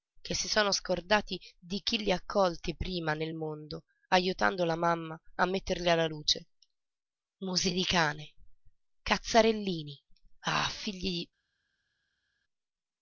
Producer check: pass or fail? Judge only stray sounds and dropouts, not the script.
pass